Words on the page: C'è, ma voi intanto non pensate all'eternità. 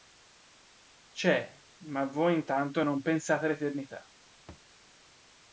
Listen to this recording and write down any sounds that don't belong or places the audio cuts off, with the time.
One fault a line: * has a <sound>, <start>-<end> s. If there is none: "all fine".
* has a thud, 4.5-4.7 s